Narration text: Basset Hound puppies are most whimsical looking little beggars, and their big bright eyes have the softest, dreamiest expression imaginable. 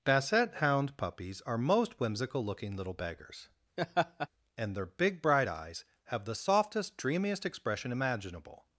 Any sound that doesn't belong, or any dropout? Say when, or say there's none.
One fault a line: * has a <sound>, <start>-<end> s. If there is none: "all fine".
* has a laugh, 3.8-4.3 s